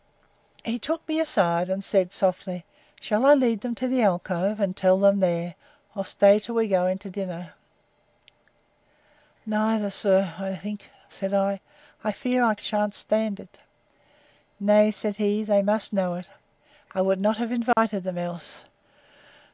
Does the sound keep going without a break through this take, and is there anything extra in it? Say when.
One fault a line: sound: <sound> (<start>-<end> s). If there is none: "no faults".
sound: dropout (17.7-17.8 s)